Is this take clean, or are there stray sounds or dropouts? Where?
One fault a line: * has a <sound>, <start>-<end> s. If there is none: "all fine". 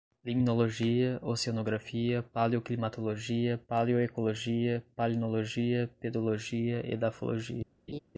* has a laugh, 7.9-8.0 s